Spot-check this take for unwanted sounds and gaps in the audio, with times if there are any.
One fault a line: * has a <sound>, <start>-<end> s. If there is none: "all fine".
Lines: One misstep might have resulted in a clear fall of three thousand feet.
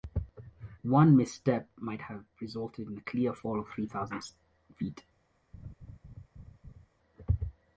* has a laugh, 5.5-6.9 s